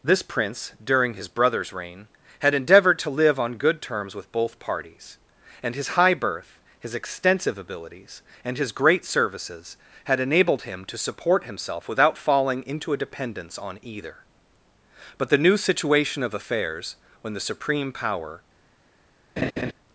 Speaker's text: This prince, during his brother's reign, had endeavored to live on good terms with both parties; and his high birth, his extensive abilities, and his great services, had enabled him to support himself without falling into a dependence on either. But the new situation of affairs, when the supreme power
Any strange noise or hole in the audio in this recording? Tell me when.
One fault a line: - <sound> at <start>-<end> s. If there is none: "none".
- laugh at 19.4-19.7 s